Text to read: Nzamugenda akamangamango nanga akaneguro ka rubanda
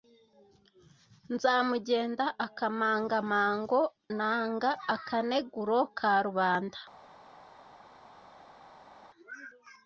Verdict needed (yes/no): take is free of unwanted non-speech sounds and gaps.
yes